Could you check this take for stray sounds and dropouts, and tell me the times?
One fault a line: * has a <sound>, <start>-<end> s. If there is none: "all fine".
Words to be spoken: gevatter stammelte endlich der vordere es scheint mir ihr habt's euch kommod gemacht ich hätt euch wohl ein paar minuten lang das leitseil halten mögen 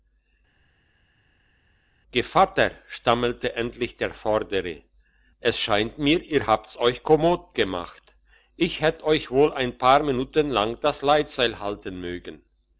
all fine